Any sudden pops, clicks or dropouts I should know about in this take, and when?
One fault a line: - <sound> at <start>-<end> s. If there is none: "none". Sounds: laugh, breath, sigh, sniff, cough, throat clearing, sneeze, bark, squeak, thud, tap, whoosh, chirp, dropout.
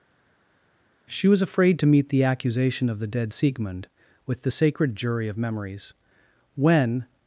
none